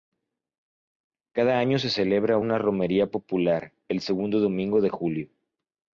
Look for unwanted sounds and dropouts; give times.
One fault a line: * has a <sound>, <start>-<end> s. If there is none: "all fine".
all fine